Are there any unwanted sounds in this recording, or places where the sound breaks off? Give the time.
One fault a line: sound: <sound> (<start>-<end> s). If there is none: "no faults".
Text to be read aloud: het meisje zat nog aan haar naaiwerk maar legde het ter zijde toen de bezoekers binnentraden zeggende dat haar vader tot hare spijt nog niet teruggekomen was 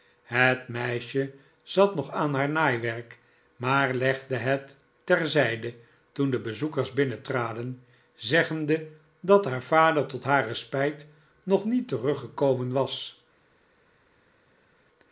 no faults